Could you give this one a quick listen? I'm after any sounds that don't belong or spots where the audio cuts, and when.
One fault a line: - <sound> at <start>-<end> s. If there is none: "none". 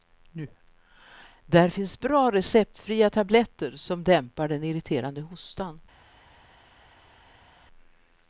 none